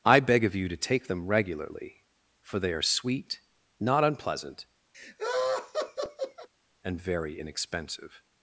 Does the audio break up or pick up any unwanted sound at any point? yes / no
yes